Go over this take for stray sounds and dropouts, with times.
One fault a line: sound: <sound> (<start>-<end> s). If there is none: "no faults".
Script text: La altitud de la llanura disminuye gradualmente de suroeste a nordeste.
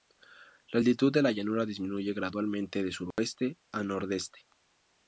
sound: dropout (3.1-3.2 s)